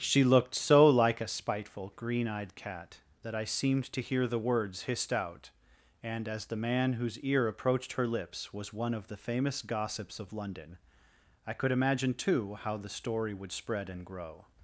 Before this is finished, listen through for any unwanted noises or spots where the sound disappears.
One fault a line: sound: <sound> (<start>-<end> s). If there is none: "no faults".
no faults